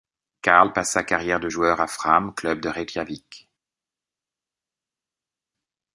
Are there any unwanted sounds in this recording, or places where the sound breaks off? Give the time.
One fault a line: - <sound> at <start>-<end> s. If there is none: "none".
none